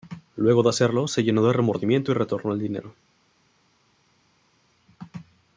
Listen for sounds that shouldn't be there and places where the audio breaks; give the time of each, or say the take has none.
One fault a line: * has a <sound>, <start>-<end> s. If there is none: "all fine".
all fine